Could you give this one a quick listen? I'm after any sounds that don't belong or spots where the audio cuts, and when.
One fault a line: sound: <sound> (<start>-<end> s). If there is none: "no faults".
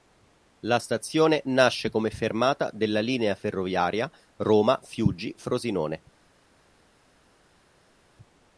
no faults